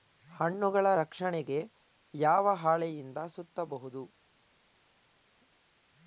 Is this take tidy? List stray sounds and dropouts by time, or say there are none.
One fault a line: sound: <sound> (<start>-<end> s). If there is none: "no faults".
no faults